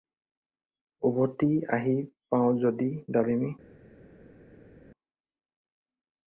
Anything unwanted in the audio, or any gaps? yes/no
no